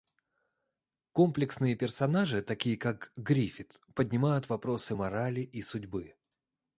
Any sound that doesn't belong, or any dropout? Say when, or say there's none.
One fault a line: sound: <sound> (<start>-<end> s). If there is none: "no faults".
no faults